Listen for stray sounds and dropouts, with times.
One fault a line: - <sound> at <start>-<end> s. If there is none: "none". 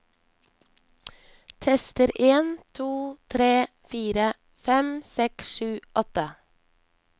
none